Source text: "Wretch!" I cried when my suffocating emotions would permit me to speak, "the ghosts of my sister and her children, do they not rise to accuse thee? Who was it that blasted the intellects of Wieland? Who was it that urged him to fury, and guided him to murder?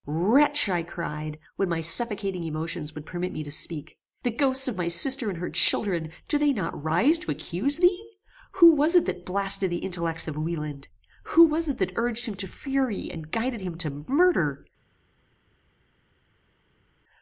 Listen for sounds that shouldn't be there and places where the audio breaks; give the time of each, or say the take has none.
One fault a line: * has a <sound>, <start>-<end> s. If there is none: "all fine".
all fine